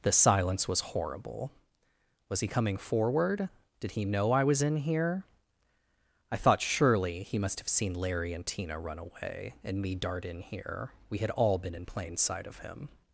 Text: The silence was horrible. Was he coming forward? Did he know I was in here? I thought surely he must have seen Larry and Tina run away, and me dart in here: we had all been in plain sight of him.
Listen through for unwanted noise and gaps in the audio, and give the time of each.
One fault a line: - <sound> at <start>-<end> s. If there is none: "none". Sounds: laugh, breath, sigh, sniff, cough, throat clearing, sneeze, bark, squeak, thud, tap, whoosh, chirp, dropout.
none